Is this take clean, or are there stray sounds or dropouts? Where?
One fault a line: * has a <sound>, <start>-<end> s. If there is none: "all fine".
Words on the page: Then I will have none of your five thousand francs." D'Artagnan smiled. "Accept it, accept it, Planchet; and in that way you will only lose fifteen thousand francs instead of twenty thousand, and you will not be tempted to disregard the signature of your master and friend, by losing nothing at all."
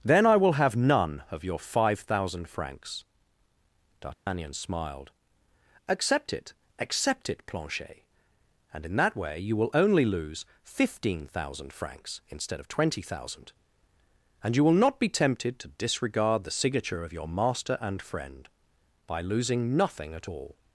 * has a dropout, 4.1-4.3 s